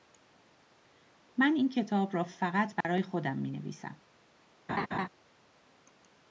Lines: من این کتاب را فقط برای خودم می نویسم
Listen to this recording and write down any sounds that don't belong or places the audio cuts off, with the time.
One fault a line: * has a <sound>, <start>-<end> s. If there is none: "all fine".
* has a dropout, 2.8-2.8 s
* has a laugh, 4.7-5.1 s